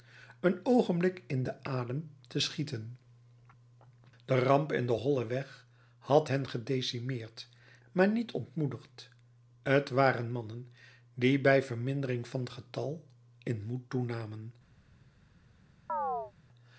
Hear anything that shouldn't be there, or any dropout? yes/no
yes